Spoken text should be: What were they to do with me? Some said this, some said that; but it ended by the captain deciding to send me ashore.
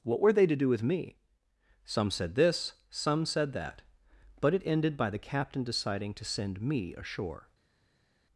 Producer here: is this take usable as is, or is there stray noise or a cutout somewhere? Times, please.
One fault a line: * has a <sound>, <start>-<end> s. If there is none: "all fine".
all fine